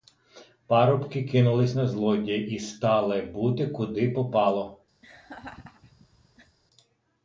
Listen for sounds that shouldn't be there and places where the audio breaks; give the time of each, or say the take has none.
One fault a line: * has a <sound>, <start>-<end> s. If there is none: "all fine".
* has a laugh, 5.0-6.6 s